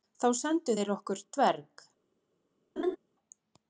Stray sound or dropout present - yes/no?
yes